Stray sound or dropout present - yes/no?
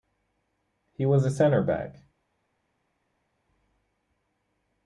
no